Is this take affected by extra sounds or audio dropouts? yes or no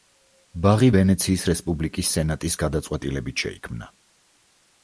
no